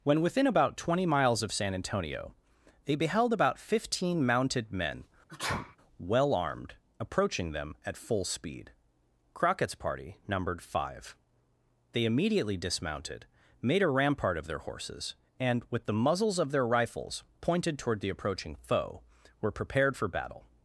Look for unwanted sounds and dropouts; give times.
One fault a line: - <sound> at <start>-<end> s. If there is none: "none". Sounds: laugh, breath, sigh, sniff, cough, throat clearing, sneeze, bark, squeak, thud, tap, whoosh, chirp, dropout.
- sneeze at 5.3-5.8 s